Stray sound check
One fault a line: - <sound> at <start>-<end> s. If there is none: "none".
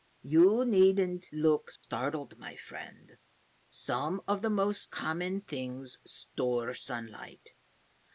- dropout at 1.8-1.8 s